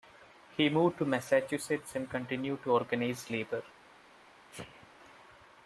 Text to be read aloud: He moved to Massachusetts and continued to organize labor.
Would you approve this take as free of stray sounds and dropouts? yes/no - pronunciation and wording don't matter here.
no